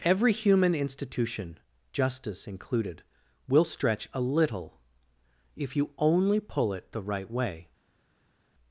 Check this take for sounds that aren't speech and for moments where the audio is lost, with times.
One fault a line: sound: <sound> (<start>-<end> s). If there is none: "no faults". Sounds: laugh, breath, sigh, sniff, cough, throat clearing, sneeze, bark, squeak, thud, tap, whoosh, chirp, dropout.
no faults